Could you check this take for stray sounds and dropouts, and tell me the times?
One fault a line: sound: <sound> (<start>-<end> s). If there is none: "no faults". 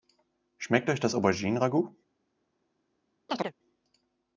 sound: chirp (3.3-3.5 s)